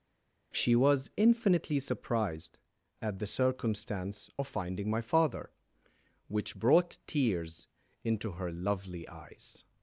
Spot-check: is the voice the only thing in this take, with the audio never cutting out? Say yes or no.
yes